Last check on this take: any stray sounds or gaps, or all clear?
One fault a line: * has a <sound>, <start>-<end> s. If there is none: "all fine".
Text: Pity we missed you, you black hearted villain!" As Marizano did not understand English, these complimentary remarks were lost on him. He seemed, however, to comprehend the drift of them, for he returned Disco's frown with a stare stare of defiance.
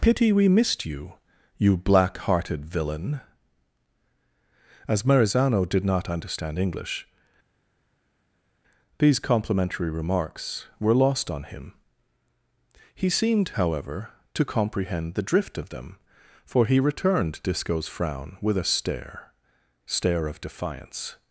all fine